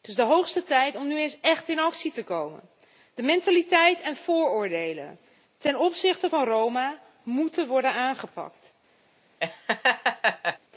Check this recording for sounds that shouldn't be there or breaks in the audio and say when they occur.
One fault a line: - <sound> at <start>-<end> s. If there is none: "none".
- laugh at 9.4-10.6 s